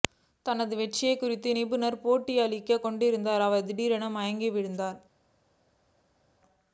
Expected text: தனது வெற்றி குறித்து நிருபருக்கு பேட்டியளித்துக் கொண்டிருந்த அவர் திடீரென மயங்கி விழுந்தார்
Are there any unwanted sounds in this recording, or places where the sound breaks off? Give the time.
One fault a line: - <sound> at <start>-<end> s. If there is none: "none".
none